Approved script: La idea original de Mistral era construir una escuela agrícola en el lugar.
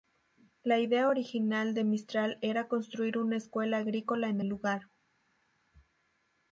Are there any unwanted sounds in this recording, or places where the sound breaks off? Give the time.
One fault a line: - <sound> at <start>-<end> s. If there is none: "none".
none